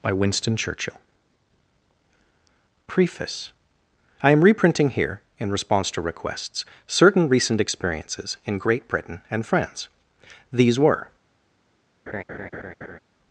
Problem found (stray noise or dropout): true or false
true